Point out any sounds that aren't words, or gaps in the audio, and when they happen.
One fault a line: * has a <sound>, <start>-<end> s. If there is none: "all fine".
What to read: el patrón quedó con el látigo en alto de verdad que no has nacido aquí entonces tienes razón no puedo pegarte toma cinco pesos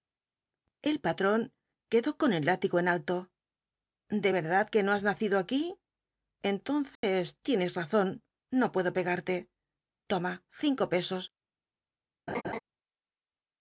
* has a dropout, 7.0-7.0 s
* has a laugh, 12.3-12.6 s